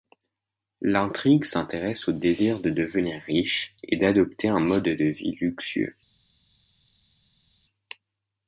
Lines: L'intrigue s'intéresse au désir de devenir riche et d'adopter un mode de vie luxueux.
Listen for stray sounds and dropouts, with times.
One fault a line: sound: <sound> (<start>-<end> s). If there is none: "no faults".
no faults